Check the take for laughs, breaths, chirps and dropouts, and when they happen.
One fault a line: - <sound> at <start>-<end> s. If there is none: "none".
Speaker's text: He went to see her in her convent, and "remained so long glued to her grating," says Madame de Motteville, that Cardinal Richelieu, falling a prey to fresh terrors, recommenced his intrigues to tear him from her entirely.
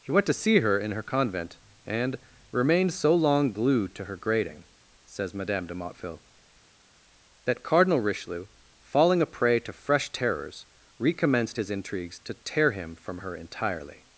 none